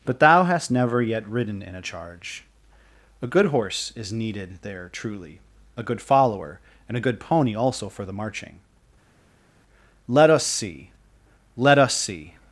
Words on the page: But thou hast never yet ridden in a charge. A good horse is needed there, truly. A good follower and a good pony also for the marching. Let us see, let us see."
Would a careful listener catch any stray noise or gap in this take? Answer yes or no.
no